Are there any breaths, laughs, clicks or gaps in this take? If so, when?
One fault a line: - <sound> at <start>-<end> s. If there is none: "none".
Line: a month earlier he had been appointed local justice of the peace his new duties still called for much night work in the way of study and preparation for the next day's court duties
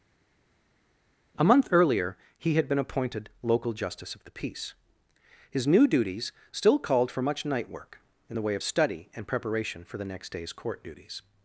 none